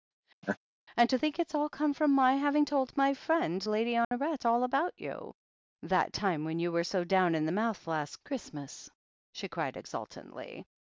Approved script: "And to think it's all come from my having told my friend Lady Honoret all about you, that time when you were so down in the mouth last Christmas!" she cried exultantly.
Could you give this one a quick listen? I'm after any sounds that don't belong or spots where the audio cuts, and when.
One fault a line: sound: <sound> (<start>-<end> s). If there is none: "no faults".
sound: laugh (0.4-0.6 s)
sound: dropout (4.0-4.1 s)